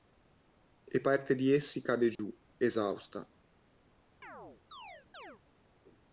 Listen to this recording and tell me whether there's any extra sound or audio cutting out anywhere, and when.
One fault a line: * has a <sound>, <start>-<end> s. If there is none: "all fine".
* has a dropout, 2.2-2.2 s
* has a chirp, 4.2-5.4 s